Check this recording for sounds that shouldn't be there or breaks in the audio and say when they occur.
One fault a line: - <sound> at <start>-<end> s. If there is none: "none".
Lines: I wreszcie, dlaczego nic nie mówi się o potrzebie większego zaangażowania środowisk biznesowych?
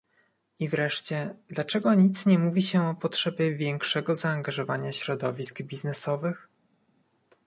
none